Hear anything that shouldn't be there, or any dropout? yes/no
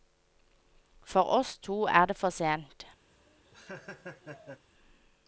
yes